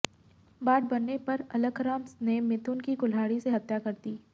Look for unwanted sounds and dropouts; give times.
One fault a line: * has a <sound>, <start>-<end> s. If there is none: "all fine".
all fine